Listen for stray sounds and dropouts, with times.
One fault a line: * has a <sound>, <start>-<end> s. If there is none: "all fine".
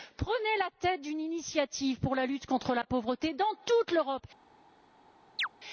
* has a chirp, 5.4-5.5 s